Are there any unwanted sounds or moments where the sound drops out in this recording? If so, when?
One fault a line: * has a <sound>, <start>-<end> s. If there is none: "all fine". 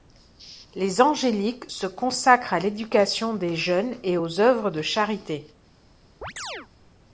* has a chirp, 6.2-6.7 s